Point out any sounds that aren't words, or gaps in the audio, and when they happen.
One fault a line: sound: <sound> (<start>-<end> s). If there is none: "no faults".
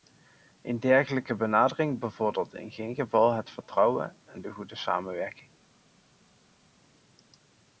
no faults